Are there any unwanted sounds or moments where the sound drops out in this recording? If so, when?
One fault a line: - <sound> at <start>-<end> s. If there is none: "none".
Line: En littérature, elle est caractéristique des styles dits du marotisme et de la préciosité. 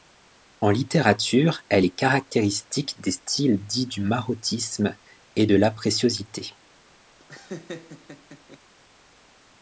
- laugh at 7.2-8.6 s